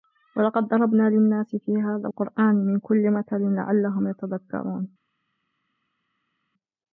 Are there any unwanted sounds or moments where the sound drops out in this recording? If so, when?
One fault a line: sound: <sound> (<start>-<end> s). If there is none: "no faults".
no faults